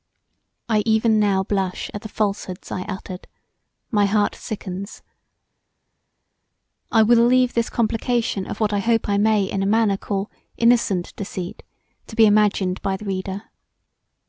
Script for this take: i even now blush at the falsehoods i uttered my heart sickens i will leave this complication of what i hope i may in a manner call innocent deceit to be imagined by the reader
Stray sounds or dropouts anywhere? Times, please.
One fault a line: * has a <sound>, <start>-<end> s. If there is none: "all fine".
all fine